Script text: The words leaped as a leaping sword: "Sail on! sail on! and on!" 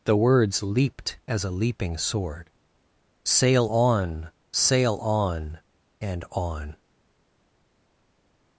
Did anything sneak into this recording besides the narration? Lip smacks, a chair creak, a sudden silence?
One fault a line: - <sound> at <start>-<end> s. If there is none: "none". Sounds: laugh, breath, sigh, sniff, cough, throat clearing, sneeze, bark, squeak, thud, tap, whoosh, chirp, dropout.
none